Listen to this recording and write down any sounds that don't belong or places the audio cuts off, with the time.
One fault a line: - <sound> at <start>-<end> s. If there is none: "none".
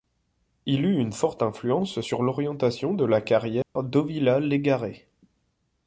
- dropout at 3.6-3.8 s